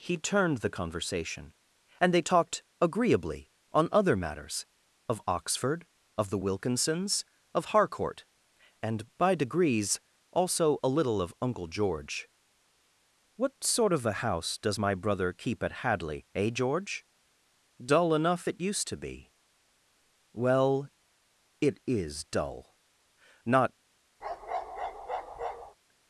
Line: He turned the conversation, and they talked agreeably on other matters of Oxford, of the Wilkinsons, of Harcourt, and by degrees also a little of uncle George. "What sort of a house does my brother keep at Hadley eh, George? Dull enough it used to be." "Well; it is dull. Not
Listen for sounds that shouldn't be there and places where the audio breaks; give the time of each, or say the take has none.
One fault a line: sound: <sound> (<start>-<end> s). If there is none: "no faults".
sound: bark (24.2-25.8 s)